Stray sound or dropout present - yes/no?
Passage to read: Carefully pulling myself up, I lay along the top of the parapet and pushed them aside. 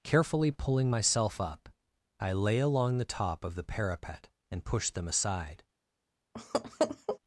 yes